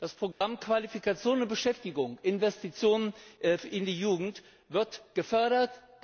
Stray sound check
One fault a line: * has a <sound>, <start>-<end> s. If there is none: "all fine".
* has a dropout, 0.3-0.4 s